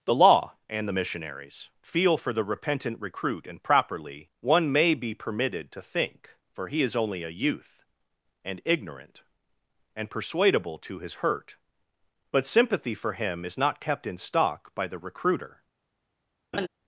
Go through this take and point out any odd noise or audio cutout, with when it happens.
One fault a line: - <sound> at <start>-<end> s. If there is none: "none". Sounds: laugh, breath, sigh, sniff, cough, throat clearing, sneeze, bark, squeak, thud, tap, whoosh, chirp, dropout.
- laugh at 16.5-16.7 s